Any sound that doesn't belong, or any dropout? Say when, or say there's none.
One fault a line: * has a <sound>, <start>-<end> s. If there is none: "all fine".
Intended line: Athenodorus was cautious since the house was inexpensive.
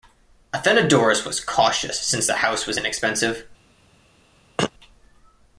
* has a throat clearing, 4.6-4.7 s